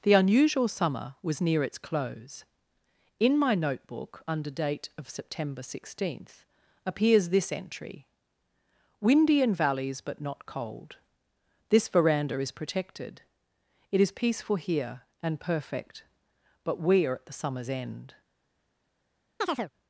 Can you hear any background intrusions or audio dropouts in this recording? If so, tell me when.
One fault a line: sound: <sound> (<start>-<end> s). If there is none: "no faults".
sound: chirp (19.4-19.7 s)